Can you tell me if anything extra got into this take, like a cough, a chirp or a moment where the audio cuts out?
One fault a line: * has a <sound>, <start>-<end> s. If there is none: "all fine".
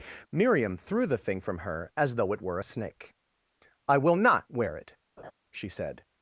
* has a laugh, 5.2-5.3 s